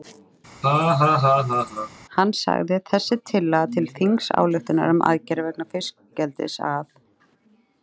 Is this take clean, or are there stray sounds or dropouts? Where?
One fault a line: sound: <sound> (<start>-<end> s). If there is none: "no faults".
sound: laugh (0.6-1.9 s)